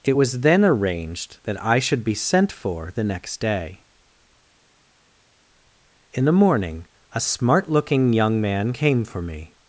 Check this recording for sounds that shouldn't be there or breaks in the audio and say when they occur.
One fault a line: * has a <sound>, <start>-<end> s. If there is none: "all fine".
all fine